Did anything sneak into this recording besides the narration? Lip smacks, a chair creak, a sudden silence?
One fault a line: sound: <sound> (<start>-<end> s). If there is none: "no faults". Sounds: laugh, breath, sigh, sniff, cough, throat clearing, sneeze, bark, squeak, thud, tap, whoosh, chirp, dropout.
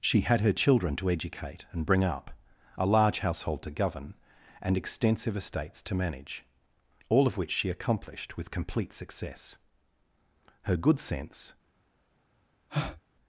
sound: breath (12.7-13.0 s)